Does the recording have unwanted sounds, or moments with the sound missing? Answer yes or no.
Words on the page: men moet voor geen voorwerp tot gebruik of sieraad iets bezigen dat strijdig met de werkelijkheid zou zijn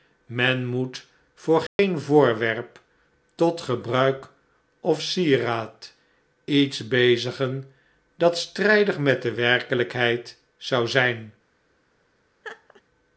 yes